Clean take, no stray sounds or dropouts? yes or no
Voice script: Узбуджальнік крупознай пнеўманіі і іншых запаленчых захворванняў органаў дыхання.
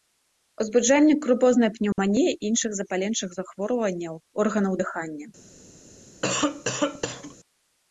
no